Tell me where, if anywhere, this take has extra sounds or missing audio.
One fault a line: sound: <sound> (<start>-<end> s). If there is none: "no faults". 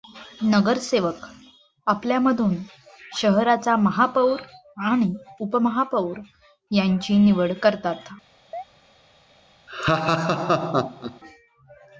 sound: chirp (8.5-8.6 s)
sound: laugh (9.7-11.2 s)